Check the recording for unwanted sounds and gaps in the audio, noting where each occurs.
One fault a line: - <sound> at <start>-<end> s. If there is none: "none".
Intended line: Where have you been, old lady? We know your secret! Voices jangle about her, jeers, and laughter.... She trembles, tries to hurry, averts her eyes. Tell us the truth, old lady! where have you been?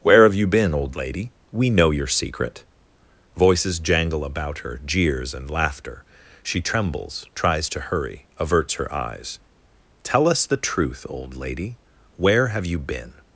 none